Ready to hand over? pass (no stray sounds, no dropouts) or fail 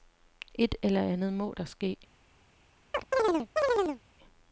fail